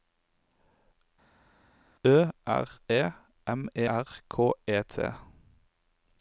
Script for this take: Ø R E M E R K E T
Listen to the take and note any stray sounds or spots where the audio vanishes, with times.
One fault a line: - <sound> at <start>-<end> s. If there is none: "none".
none